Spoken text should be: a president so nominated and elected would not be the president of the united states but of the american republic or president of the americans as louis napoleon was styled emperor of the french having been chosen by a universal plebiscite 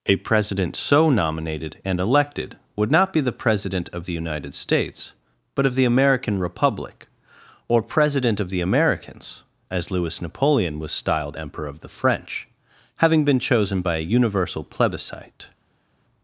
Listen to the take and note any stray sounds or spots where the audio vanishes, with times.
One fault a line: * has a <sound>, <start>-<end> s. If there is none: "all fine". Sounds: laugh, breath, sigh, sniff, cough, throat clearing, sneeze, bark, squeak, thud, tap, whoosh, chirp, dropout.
all fine